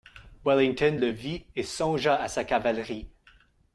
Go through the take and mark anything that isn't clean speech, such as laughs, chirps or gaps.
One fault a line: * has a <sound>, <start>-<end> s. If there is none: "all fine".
all fine